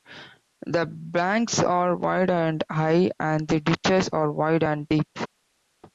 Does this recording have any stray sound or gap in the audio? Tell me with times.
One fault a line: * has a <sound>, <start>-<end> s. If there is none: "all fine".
all fine